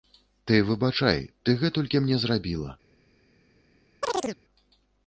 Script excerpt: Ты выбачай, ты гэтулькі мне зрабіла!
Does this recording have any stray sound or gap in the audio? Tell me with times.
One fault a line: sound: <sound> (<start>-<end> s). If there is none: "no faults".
sound: chirp (4.0-4.4 s)